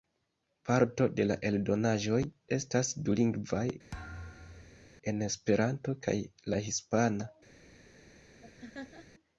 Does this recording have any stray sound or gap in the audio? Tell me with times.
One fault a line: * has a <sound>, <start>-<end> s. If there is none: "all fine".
* has a thud, 3.9-4.9 s
* has a laugh, 8.4-9.1 s